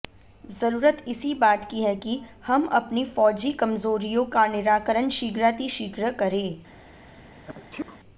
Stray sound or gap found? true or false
true